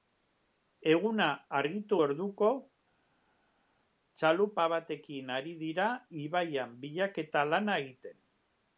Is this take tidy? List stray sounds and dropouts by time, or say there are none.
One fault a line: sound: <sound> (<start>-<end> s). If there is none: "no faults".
no faults